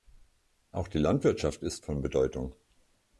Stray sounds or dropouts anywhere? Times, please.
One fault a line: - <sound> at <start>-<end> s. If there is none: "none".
none